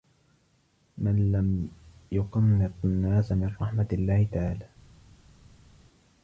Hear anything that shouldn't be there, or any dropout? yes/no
no